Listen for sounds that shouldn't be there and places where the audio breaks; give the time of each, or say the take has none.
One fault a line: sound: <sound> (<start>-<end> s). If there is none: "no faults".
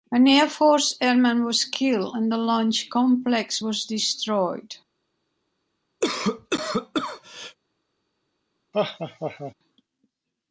sound: cough (6.0-7.6 s)
sound: laugh (8.7-9.5 s)